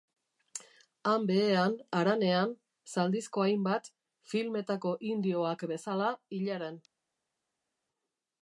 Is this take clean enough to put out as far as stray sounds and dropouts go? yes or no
yes